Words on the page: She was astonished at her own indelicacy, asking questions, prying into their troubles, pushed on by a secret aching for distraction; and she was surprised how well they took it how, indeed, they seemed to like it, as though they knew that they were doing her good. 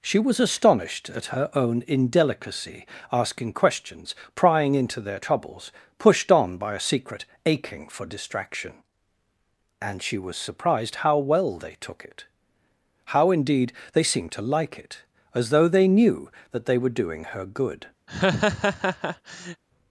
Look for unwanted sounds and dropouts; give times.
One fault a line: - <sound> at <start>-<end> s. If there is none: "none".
- laugh at 18.1-19.6 s